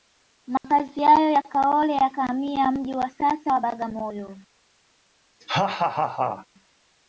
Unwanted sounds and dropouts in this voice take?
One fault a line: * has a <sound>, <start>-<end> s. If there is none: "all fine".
* has a dropout, 0.6-0.6 s
* has a laugh, 5.4-6.5 s